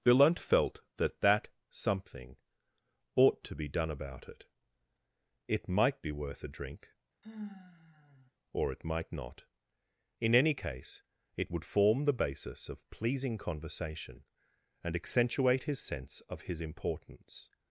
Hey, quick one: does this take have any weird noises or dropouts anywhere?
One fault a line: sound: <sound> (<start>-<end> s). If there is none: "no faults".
sound: sigh (7.2-8.3 s)